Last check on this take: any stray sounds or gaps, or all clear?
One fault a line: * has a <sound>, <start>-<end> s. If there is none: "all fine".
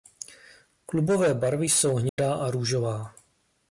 * has a dropout, 2.1-2.2 s